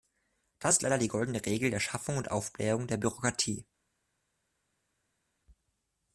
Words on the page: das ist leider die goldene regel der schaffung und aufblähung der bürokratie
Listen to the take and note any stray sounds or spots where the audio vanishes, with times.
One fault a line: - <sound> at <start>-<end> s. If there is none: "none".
none